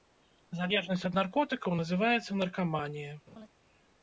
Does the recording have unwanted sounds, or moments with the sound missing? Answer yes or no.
yes